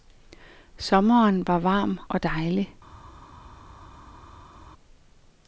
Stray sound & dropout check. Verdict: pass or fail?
pass